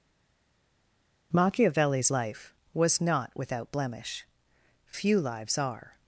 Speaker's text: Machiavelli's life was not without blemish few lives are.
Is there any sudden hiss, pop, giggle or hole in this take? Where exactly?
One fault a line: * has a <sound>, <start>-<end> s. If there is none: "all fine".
all fine